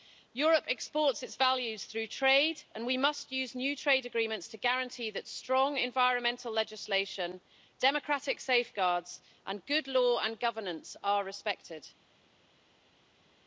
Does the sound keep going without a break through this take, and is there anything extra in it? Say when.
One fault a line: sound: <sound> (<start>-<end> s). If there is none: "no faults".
no faults